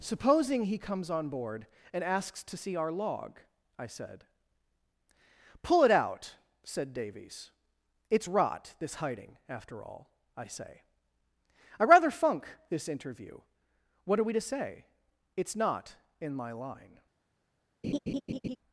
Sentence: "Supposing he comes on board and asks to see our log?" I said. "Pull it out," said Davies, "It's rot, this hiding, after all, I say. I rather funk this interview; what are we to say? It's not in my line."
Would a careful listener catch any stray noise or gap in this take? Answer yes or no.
yes